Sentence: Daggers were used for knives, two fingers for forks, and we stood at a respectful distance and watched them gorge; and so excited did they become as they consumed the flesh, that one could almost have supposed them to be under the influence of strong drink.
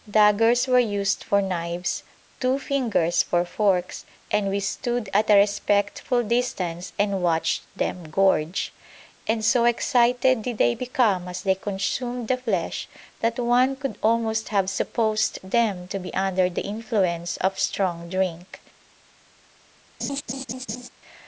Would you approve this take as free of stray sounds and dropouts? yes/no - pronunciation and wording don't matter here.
no